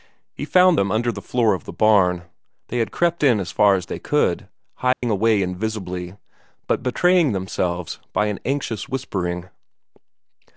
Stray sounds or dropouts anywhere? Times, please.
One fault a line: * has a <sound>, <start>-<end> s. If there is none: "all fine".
* has a dropout, 4.9-5.0 s